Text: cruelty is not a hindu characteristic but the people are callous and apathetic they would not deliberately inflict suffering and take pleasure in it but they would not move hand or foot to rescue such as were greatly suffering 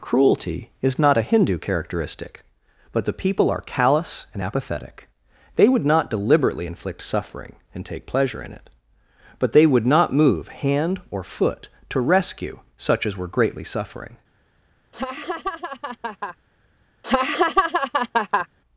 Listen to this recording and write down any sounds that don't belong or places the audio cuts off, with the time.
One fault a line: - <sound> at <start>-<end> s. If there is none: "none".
- laugh at 14.9-16.4 s
- laugh at 17.0-18.5 s